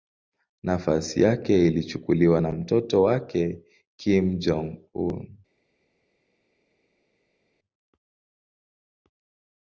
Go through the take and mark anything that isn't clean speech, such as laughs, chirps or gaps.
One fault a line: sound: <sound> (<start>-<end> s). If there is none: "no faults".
no faults